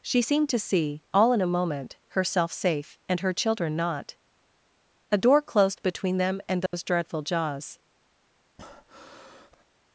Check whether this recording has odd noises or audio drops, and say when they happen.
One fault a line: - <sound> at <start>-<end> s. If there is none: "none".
- dropout at 6.7-6.7 s
- breath at 8.6-9.6 s